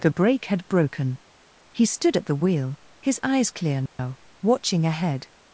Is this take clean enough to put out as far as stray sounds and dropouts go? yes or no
no